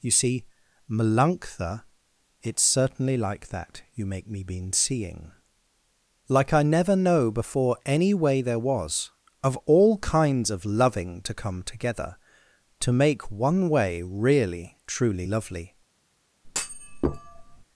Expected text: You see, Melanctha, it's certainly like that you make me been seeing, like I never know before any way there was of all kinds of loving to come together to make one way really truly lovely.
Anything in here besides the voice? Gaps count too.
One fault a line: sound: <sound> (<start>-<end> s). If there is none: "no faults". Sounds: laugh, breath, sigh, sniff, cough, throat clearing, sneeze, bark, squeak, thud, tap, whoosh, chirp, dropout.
sound: thud (16.4-17.6 s)